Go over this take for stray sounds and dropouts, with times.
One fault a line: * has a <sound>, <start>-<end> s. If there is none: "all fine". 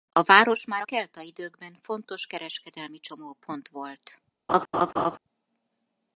* has a laugh, 4.5-5.2 s